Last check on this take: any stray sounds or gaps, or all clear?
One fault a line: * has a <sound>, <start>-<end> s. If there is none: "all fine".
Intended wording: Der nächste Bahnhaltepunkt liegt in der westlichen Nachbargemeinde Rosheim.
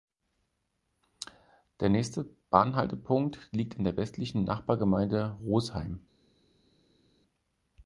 all fine